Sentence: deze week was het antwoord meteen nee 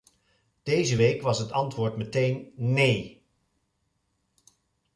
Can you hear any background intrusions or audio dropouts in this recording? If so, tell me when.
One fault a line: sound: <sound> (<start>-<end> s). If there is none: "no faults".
no faults